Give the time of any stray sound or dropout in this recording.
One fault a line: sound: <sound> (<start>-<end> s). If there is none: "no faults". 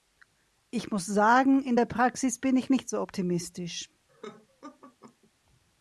sound: laugh (4.1-5.3 s)